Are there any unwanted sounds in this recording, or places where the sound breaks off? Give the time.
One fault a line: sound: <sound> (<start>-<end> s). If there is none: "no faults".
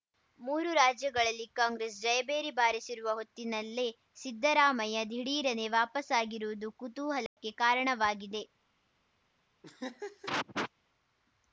sound: dropout (7.3-7.4 s)
sound: laugh (9.6-10.7 s)